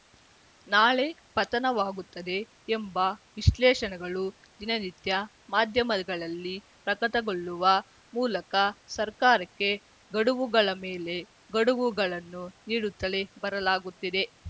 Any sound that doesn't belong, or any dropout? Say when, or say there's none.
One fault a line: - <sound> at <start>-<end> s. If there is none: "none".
none